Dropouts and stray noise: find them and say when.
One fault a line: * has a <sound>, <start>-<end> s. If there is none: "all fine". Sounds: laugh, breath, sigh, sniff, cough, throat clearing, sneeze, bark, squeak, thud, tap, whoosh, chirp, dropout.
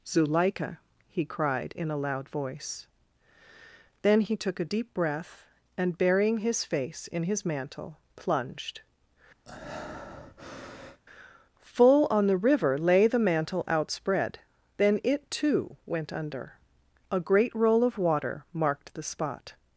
* has a breath, 9.5-11.0 s